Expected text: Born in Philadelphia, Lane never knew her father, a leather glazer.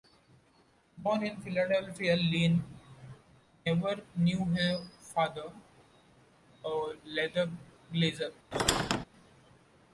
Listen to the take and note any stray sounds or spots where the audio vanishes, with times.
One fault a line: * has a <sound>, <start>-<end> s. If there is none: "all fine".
* has a squeak, 8.5-9.1 s